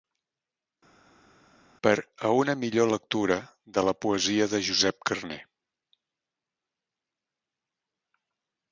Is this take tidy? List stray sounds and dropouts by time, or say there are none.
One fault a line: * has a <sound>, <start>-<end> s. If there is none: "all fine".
all fine